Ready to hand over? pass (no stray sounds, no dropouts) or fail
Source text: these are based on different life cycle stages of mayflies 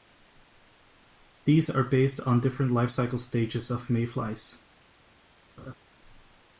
fail